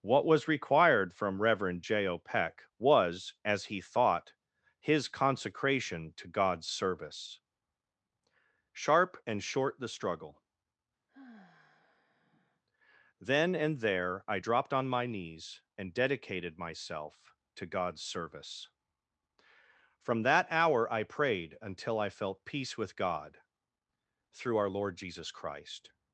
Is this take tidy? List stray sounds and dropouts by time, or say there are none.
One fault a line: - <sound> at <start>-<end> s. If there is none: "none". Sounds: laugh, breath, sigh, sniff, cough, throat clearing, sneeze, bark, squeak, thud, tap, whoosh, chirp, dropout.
- sigh at 11.1-12.6 s